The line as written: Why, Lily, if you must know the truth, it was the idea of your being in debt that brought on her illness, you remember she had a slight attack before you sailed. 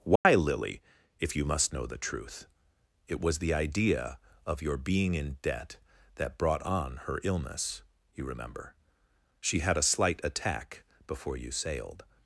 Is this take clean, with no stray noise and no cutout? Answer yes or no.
no